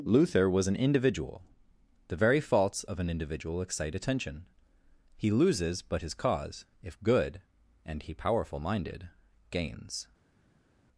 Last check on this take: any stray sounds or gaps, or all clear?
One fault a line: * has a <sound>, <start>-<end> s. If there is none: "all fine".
all fine